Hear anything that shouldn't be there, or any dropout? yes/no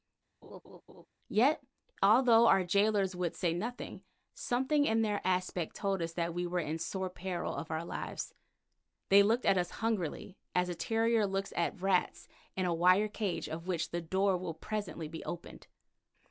yes